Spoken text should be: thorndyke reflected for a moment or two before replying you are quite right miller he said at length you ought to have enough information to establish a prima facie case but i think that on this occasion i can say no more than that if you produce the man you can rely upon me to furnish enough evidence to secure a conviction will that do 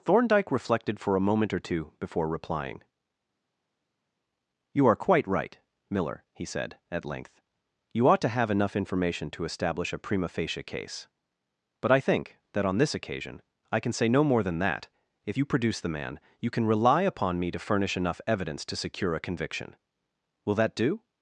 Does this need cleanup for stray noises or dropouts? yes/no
no